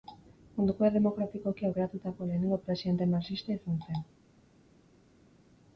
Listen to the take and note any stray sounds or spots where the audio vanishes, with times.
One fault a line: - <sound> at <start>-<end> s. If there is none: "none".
none